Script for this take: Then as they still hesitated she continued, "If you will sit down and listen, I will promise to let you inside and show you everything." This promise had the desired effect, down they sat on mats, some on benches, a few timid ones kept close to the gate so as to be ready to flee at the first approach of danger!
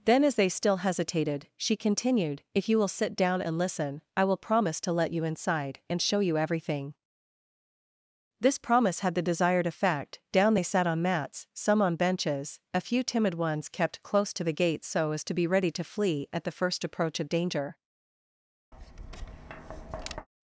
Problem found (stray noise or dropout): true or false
true